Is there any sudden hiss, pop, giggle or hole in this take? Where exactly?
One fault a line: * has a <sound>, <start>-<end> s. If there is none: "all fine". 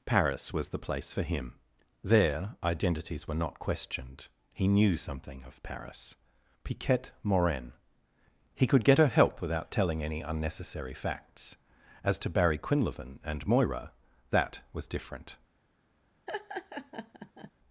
* has a laugh, 16.3-17.5 s